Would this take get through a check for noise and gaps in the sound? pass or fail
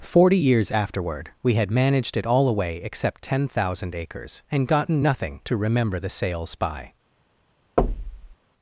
fail